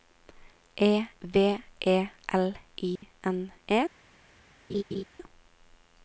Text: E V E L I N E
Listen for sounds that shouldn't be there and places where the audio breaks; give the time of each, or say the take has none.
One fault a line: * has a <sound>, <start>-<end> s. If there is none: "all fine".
* has a dropout, 3.0-3.0 s
* has a laugh, 4.7-5.0 s